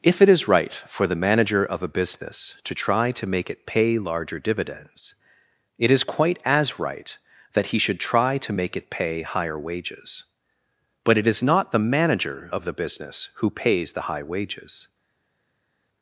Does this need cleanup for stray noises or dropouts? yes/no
no